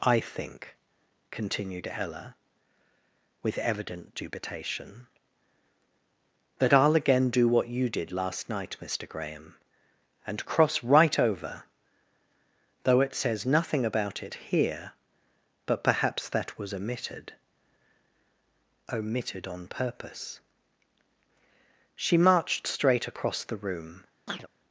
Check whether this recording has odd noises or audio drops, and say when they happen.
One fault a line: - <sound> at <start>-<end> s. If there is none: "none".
- chirp at 24.3-24.5 s